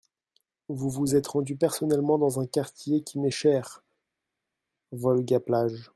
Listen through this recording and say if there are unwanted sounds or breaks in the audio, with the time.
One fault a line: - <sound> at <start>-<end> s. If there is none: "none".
none